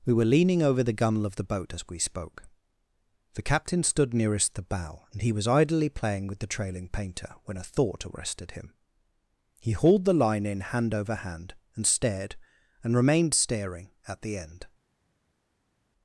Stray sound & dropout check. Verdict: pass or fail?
pass